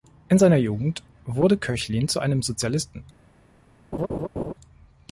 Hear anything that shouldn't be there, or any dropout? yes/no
yes